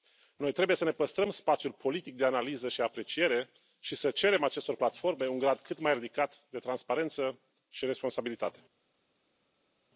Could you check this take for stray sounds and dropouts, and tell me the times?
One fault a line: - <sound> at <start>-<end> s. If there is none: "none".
none